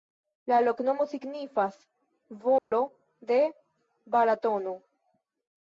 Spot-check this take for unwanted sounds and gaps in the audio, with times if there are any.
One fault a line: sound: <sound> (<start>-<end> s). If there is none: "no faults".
sound: dropout (2.6-2.7 s)